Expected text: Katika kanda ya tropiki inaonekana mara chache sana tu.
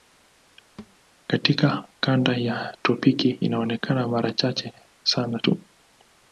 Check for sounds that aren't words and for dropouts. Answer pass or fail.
fail